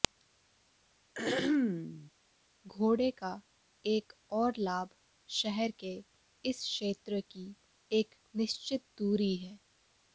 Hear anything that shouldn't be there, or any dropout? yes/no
yes